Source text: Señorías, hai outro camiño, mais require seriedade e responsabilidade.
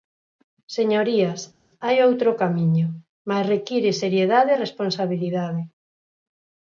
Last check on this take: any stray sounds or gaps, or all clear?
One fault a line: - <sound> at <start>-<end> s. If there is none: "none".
none